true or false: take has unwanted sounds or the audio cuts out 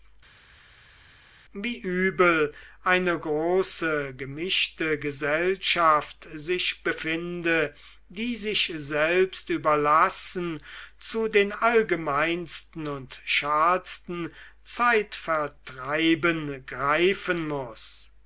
false